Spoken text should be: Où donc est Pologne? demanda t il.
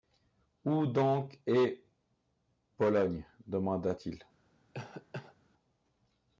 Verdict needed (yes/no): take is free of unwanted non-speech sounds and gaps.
no